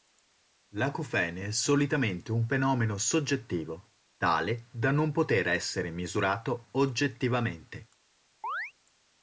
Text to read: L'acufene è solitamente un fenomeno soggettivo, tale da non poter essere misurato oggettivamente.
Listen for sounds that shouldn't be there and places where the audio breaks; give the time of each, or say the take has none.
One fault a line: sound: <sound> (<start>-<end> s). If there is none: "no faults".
sound: chirp (8.4-8.7 s)